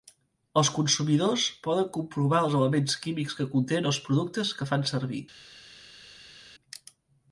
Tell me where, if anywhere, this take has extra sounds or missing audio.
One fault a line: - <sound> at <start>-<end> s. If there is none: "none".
none